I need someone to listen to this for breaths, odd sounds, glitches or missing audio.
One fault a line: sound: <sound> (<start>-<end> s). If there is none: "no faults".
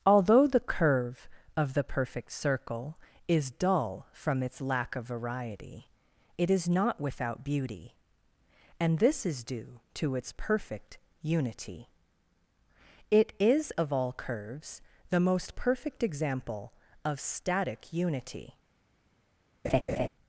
sound: laugh (19.6-20.1 s)